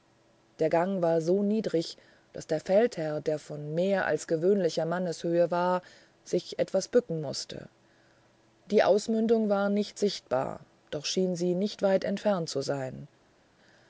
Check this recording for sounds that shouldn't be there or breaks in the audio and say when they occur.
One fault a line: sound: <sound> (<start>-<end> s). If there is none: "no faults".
no faults